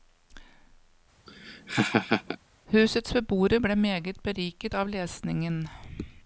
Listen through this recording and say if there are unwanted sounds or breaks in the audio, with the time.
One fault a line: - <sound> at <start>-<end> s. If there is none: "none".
- laugh at 1.3-2.4 s